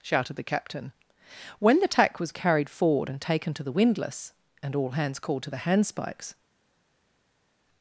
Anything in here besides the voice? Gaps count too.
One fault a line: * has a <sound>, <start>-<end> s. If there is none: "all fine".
all fine